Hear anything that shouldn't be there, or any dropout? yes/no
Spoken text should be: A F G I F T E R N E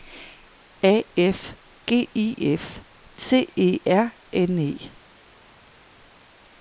no